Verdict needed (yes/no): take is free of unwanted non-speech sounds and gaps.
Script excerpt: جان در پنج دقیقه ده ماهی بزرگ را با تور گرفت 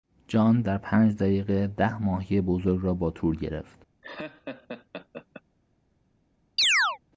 no